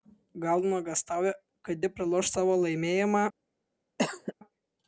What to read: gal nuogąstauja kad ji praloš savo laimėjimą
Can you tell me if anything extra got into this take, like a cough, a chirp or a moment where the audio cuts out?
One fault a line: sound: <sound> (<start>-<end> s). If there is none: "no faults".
sound: cough (4.0-4.3 s)